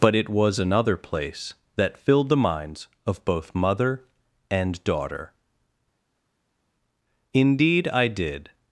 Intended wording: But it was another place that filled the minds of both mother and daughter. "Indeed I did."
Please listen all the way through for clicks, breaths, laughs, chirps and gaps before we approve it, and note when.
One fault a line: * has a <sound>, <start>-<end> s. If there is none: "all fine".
all fine